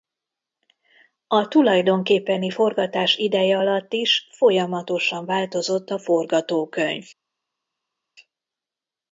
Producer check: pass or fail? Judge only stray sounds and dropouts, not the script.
pass